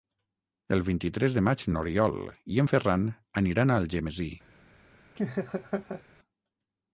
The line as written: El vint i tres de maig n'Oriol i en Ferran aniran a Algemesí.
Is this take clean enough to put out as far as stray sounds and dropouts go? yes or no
no